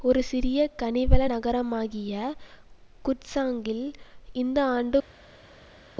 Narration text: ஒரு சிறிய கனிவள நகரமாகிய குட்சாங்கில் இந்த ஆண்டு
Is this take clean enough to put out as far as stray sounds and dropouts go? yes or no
yes